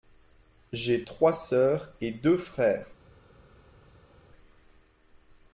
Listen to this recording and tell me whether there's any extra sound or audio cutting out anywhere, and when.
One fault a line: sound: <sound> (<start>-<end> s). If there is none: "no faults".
no faults